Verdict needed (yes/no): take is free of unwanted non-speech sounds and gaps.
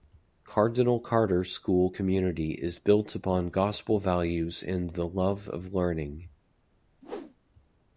no